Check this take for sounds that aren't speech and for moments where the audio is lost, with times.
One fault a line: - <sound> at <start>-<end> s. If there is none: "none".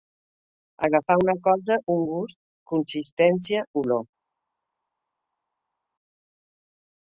none